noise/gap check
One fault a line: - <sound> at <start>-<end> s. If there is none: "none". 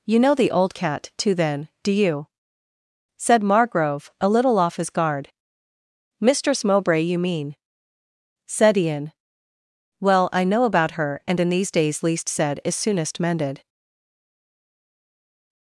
none